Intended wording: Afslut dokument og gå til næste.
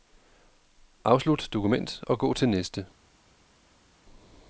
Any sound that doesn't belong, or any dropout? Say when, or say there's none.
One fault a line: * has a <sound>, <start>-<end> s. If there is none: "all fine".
all fine